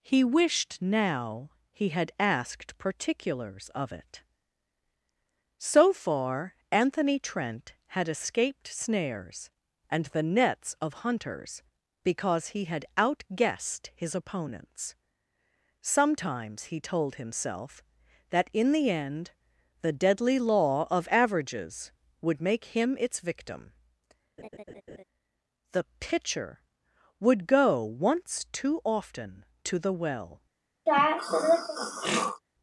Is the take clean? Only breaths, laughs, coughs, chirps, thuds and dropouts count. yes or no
no